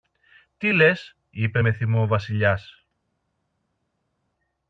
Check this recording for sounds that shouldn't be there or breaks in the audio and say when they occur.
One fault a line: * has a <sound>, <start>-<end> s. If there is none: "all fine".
all fine